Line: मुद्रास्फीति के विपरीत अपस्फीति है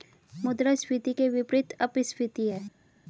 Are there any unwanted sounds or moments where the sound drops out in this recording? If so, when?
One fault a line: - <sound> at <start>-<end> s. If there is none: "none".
none